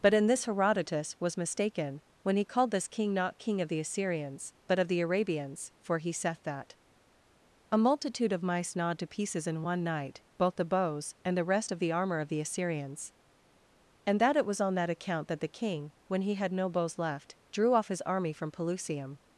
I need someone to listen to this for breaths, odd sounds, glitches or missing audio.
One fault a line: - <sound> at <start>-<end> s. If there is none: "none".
none